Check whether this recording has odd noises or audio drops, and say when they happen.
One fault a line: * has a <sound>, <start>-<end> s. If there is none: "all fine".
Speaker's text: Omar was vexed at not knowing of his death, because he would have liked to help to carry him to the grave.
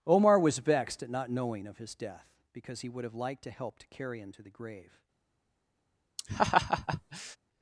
* has a laugh, 6.2-7.4 s